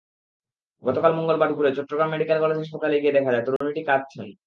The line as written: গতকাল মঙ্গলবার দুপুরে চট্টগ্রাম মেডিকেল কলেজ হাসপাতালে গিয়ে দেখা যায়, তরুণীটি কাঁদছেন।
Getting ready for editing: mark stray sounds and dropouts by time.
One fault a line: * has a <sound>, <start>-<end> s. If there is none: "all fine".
* has a dropout, 3.6-3.6 s